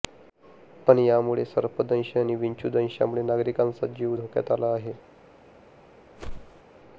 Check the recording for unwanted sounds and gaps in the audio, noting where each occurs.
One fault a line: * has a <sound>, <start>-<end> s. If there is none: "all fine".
* has a whoosh, 6.2-6.6 s